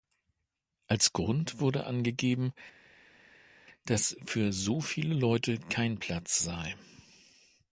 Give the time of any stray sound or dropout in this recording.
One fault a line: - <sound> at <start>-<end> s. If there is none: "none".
none